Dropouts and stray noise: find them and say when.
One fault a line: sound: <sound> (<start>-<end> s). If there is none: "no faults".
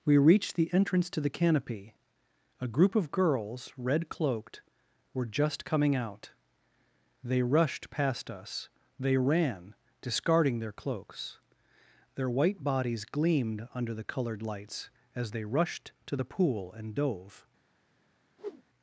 sound: whoosh (18.4-18.6 s)